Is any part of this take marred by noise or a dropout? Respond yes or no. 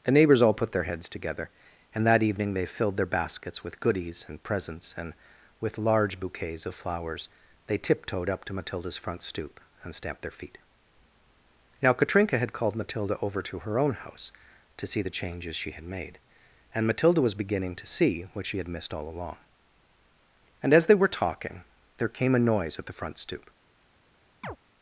yes